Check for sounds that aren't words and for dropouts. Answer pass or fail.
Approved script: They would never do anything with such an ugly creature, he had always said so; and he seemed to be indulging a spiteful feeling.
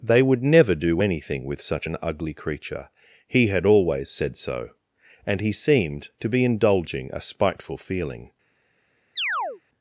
fail